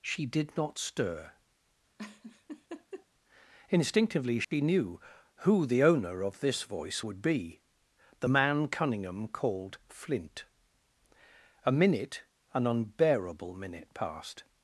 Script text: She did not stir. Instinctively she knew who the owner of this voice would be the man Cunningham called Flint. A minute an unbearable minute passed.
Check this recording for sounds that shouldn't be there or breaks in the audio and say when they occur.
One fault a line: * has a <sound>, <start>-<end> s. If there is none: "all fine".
* has a laugh, 2.0-3.1 s
* has a dropout, 4.4-4.5 s